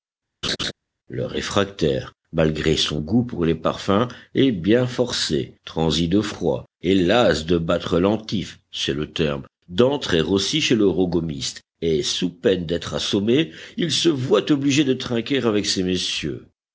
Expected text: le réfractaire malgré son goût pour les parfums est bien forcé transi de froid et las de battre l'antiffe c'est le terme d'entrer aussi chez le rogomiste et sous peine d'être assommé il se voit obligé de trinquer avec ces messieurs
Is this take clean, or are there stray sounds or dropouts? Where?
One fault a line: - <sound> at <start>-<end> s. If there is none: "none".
- laugh at 0.4-0.7 s